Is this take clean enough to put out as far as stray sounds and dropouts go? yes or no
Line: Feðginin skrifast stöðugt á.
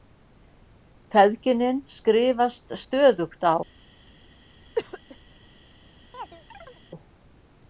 no